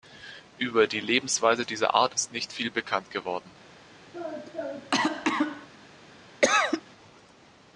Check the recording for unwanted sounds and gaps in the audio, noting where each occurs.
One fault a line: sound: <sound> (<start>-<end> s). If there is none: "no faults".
sound: cough (4.1-5.7 s)
sound: cough (6.4-6.8 s)